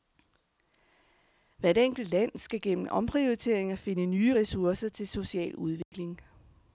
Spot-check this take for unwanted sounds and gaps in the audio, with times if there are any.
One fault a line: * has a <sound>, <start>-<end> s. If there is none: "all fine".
* has a dropout, 5.8-5.9 s